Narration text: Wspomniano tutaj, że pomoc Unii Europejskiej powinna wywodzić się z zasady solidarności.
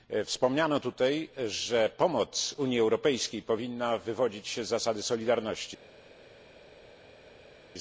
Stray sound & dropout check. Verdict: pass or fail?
pass